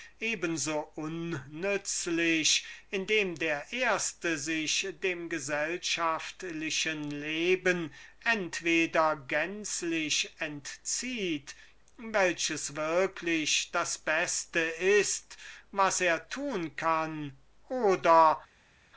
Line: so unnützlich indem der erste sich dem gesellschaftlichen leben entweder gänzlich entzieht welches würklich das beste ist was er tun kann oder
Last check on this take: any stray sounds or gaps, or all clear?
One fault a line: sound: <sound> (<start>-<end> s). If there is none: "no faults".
no faults